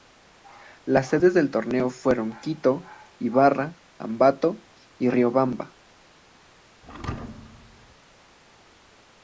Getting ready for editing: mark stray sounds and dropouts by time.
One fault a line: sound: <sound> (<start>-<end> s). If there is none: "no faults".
sound: thud (6.8-8.0 s)